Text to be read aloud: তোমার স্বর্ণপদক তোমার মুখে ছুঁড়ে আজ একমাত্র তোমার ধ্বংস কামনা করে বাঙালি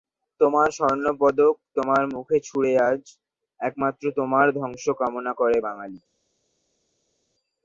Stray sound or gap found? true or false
false